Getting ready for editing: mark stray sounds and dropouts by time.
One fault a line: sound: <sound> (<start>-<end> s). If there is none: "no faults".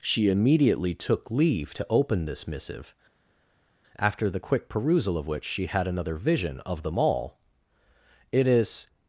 no faults